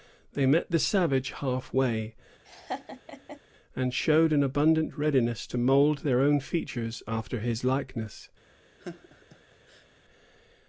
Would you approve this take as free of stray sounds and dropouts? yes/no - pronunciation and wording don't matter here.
no